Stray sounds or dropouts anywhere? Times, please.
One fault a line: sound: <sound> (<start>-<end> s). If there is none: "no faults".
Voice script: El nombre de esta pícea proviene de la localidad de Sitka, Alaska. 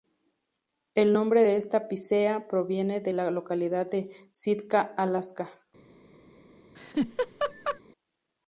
sound: laugh (6.7-7.8 s)